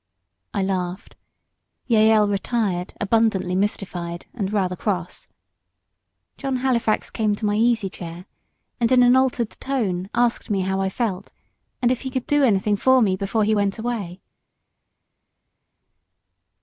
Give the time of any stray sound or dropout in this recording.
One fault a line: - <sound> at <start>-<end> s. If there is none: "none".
none